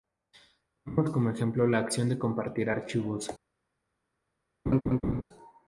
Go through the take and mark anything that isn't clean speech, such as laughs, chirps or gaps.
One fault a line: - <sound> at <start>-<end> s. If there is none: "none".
- laugh at 4.7-5.2 s